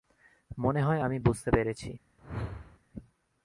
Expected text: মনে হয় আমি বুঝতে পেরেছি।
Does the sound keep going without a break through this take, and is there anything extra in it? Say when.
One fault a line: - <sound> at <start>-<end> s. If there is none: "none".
- whoosh at 2.2-2.8 s